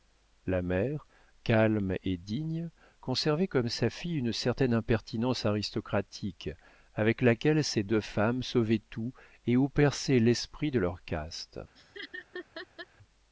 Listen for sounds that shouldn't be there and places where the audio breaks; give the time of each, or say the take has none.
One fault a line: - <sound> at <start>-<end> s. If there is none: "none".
- laugh at 11.8-12.9 s